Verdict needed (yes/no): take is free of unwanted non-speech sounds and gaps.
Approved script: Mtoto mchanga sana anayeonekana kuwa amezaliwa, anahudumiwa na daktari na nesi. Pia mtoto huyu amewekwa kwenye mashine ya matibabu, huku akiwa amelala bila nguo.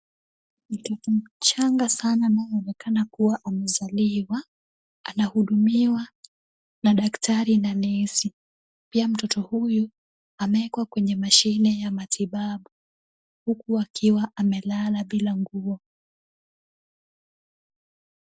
yes